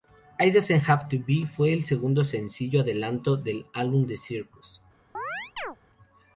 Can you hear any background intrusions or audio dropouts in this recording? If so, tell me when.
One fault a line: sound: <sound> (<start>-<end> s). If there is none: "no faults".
sound: chirp (5.1-5.8 s)